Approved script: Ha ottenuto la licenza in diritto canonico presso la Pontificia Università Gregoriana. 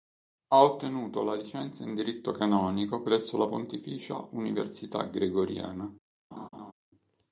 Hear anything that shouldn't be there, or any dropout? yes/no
yes